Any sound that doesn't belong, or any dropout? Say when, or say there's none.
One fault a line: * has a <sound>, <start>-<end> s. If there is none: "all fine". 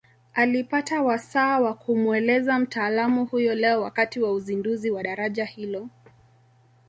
all fine